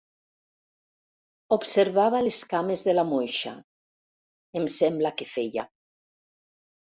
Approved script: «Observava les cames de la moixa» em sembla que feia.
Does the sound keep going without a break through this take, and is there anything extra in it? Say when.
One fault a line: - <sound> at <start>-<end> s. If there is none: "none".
none